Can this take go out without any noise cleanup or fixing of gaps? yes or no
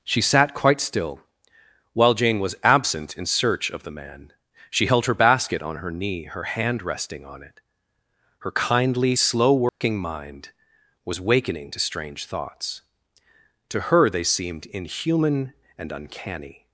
no